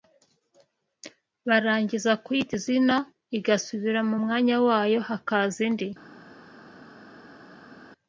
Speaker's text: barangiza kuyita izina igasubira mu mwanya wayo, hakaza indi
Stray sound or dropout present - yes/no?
no